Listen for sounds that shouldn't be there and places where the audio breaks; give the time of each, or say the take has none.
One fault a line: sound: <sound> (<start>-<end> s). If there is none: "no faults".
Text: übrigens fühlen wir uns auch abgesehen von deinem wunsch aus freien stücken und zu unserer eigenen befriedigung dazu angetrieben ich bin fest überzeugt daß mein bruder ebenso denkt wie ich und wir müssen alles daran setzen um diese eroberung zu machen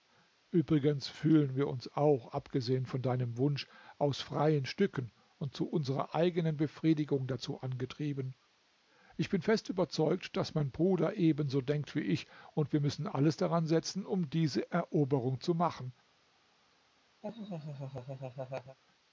sound: laugh (17.2-18.8 s)